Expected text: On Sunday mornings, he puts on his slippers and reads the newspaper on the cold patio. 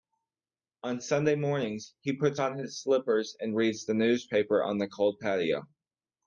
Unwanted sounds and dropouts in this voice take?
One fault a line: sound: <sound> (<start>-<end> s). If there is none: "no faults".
no faults